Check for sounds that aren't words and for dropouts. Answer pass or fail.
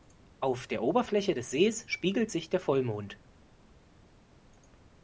pass